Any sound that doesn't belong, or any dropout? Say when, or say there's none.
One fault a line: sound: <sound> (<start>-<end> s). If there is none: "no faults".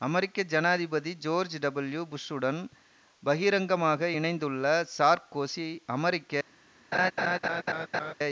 sound: laugh (6.9-8.1 s)